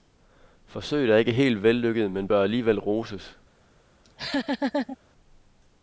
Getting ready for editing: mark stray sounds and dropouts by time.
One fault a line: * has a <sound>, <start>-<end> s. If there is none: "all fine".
* has a laugh, 4.0-5.0 s